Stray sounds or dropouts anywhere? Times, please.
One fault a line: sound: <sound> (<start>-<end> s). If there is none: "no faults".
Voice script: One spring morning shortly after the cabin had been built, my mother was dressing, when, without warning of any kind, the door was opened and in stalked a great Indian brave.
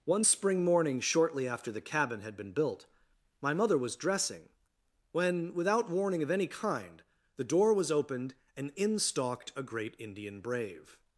no faults